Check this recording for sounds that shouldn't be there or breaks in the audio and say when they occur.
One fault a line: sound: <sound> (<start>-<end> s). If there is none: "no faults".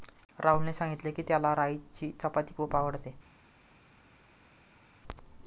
no faults